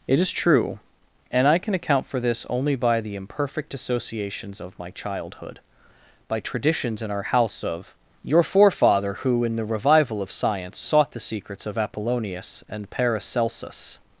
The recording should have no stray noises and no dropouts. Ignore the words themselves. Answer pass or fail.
pass